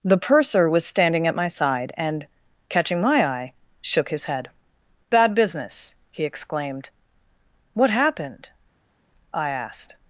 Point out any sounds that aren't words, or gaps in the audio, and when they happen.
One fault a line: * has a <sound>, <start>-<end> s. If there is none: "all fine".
all fine